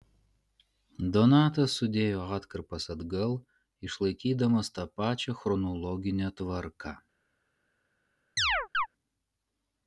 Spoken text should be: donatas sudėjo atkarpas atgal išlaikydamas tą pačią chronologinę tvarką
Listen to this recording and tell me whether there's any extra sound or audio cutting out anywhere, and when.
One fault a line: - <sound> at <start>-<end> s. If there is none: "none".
- chirp at 8.4-8.9 s